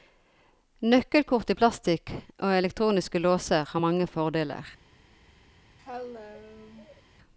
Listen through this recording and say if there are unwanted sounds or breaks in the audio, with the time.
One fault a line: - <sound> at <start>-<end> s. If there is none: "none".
- cough at 5.8-7.0 s